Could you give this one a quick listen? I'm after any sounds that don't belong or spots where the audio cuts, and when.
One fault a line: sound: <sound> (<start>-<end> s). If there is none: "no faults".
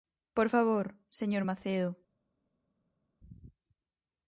no faults